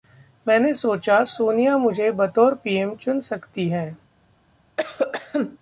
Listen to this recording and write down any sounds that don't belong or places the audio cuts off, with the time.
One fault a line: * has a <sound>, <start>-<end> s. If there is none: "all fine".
* has a cough, 4.8-5.6 s